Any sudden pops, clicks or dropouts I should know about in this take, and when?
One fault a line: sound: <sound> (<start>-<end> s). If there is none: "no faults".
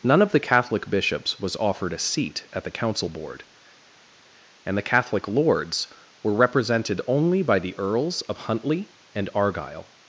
no faults